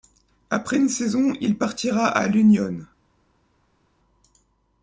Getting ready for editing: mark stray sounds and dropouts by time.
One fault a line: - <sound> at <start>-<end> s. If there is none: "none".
none